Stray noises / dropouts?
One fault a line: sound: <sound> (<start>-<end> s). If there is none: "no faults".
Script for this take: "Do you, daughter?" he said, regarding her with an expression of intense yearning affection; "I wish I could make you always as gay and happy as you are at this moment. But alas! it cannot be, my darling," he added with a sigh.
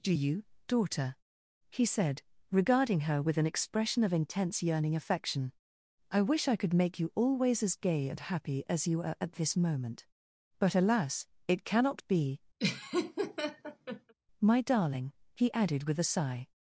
sound: laugh (12.6-14.1 s)